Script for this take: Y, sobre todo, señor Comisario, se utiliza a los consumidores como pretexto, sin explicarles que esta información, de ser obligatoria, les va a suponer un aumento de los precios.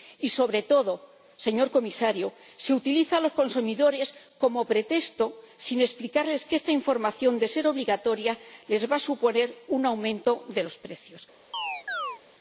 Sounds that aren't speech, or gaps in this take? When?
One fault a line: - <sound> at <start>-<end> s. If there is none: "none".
- chirp at 11.5-12.2 s